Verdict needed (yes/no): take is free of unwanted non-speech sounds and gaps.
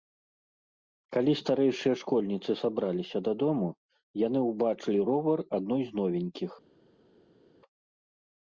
yes